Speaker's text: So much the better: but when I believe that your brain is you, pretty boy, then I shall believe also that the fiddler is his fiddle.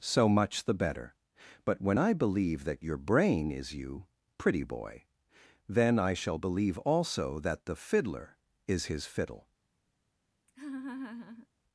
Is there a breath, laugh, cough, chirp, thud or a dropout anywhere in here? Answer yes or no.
yes